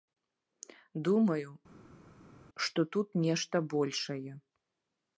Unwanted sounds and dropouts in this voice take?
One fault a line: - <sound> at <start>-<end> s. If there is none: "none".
none